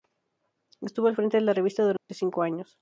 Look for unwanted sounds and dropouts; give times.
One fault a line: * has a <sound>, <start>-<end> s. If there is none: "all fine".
* has a dropout, 2.0-2.1 s